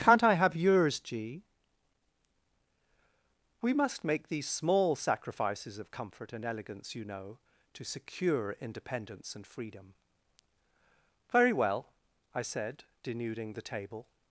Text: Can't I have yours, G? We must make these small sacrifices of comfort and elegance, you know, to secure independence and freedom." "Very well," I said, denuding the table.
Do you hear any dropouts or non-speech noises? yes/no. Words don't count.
no